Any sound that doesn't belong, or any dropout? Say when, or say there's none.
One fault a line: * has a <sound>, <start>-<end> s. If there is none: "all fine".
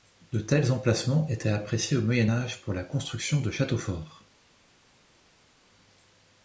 all fine